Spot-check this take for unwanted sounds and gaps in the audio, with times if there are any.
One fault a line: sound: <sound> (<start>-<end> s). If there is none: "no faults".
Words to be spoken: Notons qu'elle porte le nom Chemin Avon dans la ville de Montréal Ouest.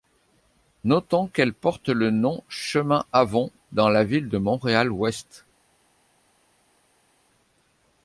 no faults